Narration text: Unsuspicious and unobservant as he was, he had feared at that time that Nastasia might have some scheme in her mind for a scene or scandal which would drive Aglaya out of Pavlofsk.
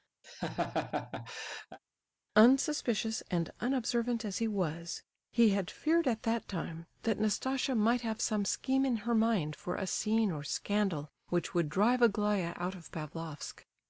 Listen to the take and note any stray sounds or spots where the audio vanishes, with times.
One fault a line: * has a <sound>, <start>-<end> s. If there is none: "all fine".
* has a laugh, 0.2-1.8 s